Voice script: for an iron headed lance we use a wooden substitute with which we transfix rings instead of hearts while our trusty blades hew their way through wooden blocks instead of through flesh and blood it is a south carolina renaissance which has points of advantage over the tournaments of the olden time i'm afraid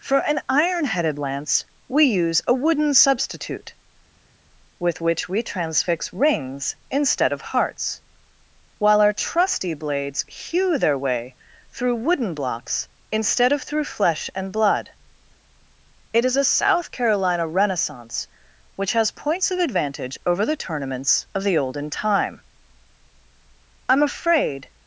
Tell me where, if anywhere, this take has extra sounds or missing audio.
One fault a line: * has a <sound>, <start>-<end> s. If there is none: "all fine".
all fine